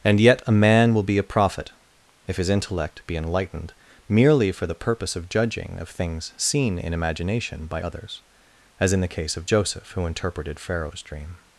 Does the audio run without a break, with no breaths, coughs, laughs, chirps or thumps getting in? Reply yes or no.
yes